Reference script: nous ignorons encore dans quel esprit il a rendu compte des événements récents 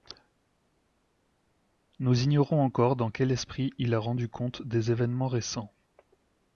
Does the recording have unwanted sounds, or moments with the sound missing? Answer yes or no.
no